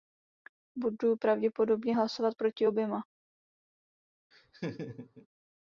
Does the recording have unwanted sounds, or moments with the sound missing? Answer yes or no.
yes